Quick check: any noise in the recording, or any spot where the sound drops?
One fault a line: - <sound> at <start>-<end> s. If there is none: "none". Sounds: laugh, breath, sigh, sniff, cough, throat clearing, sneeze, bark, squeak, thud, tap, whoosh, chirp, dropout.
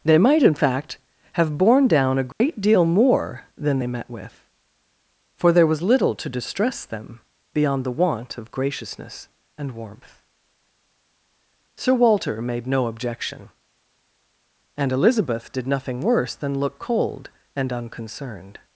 - dropout at 2.3-2.4 s